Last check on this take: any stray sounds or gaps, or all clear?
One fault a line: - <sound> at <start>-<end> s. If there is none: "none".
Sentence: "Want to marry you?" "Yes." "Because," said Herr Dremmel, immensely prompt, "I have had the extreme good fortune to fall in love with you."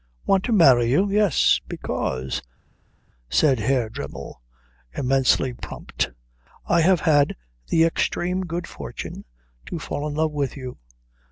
none